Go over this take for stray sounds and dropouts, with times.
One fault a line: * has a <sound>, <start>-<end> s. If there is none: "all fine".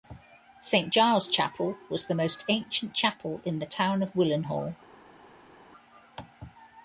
all fine